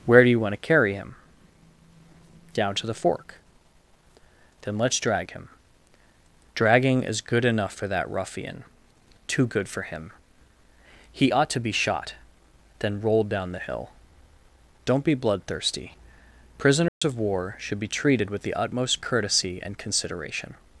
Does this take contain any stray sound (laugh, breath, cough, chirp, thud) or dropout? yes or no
yes